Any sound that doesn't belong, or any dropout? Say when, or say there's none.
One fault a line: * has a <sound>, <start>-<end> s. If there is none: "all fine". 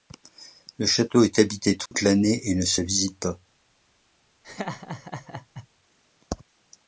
* has a dropout, 1.9-1.9 s
* has a laugh, 4.4-5.7 s